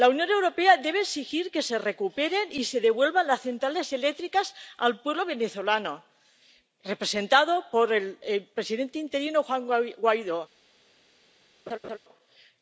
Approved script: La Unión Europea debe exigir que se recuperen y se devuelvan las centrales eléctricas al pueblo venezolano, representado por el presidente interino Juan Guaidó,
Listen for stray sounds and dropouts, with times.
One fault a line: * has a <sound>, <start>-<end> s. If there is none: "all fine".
* has a laugh, 11.7-12.0 s